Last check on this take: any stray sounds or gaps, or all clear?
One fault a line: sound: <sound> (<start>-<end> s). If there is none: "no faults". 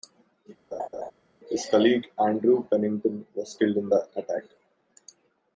sound: laugh (0.7-1.1 s)